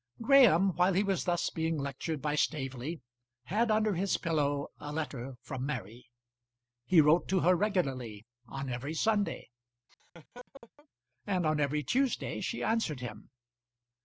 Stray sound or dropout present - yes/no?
yes